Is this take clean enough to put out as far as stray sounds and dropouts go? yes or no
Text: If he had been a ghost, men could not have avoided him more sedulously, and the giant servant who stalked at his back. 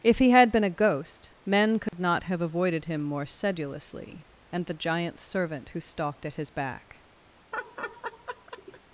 no